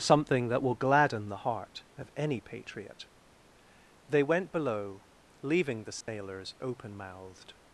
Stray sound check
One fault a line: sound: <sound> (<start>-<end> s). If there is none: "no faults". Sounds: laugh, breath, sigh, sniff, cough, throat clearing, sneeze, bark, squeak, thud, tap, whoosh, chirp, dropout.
sound: dropout (6.0-6.1 s)